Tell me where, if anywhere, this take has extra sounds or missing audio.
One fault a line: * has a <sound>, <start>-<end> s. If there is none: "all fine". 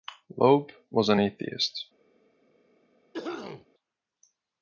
* has a cough, 3.1-3.7 s